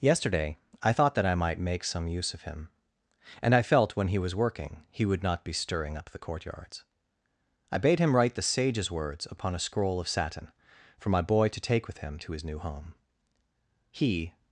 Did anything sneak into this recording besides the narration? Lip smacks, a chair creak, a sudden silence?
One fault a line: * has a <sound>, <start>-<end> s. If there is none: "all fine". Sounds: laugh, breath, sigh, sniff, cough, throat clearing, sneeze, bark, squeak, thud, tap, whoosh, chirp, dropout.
all fine